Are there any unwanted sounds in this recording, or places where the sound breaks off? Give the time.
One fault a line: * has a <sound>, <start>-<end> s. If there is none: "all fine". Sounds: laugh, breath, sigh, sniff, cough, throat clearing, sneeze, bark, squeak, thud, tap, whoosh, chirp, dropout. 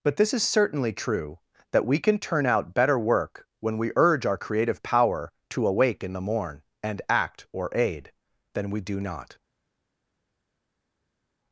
all fine